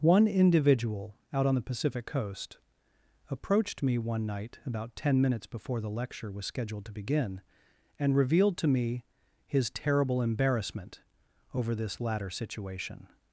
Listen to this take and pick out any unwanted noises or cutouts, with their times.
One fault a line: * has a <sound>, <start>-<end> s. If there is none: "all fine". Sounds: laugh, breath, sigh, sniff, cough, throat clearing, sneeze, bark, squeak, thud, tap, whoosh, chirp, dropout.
all fine